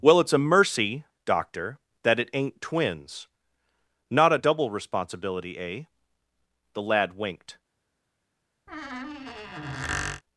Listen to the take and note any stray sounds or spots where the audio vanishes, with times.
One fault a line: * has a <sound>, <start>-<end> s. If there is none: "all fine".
* has a squeak, 8.7-10.2 s